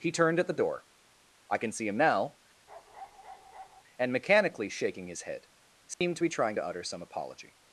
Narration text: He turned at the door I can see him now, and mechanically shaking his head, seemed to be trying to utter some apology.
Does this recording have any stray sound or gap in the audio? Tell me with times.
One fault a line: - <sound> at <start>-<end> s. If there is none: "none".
- bark at 2.7-3.8 s
- dropout at 5.9-6.0 s